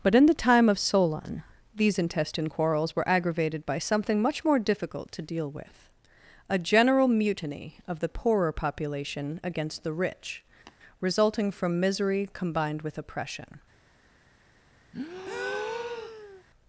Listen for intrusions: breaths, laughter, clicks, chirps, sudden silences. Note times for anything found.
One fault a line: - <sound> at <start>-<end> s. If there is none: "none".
- tap at 10.7-10.8 s
- breath at 14.9-16.4 s